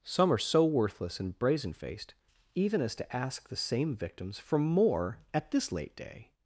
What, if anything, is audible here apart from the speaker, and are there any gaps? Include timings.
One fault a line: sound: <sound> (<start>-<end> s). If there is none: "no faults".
no faults